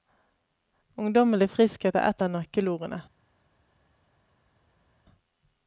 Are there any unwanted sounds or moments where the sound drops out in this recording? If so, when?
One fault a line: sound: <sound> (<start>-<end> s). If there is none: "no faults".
no faults